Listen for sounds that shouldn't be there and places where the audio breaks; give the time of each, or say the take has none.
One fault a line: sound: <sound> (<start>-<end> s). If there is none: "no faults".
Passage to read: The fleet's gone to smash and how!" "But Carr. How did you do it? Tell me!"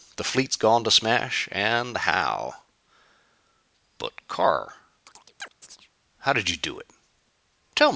sound: chirp (5.1-5.9 s)